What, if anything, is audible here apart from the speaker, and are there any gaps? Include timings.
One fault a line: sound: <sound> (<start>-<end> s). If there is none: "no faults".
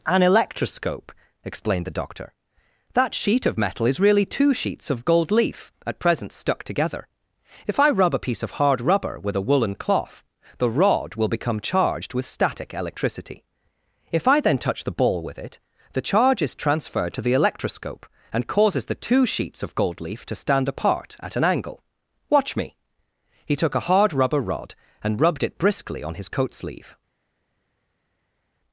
no faults